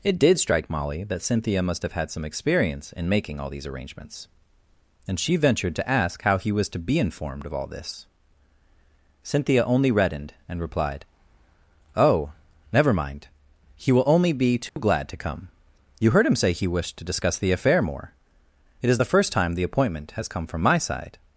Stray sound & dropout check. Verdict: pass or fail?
fail